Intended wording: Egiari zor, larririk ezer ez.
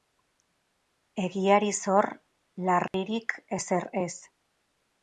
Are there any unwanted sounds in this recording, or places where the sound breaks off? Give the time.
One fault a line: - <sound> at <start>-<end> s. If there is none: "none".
- dropout at 2.9-2.9 s